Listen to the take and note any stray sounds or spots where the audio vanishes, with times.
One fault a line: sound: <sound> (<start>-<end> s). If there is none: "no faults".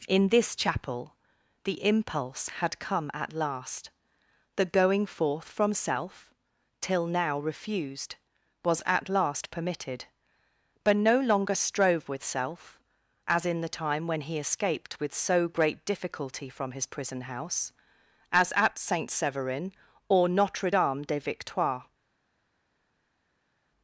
no faults